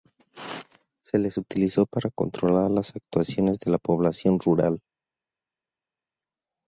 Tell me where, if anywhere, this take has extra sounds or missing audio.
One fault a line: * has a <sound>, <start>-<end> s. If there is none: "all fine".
all fine